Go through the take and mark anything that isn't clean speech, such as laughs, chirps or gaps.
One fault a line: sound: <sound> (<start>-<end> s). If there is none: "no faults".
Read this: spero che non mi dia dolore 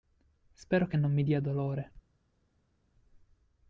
no faults